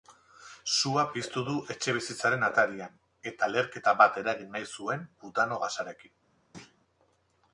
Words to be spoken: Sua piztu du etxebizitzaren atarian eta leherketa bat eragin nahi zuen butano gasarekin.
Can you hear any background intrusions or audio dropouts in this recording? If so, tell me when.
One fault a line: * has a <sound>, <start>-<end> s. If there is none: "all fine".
* has a thud, 6.5-6.8 s